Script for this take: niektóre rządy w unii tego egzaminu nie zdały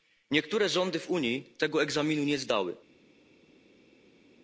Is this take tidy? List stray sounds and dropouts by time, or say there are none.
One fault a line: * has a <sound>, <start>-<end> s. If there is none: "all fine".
all fine